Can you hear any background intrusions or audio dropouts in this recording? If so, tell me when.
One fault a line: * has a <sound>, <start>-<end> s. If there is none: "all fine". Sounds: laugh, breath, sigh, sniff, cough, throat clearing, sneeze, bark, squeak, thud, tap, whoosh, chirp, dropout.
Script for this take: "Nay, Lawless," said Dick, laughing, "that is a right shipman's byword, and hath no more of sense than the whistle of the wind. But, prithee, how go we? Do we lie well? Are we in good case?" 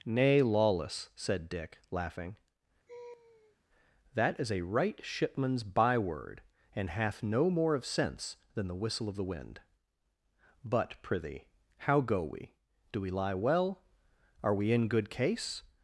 * has a laugh, 2.9-3.6 s